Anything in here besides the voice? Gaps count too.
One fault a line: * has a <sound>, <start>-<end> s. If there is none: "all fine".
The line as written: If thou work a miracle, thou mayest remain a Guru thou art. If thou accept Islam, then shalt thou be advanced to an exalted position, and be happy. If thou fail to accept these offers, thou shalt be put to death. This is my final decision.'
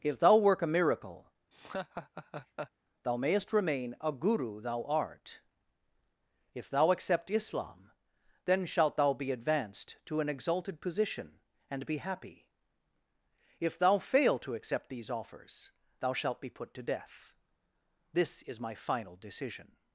* has a laugh, 1.5-2.7 s